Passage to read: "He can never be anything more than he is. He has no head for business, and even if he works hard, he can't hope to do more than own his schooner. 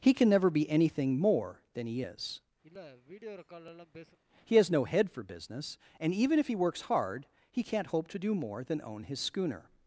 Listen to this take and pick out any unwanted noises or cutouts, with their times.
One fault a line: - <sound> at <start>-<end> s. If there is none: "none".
- sniff at 2.6-4.2 s